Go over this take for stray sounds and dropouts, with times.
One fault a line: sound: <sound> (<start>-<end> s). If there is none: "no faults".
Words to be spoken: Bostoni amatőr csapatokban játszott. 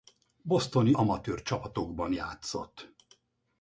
no faults